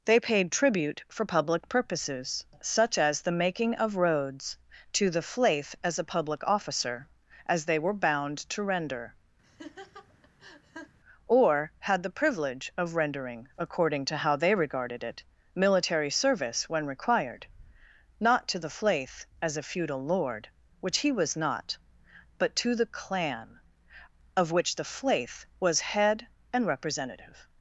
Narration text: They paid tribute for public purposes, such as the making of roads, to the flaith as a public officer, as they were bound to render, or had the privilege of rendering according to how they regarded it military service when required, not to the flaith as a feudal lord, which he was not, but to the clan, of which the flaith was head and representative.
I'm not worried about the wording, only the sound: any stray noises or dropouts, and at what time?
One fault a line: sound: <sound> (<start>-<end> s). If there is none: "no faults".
sound: laugh (9.4-11.0 s)